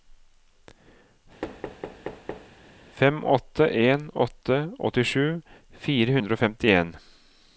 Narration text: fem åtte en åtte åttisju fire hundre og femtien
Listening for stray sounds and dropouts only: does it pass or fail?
fail